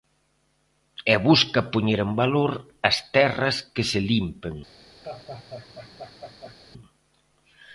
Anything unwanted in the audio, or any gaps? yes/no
yes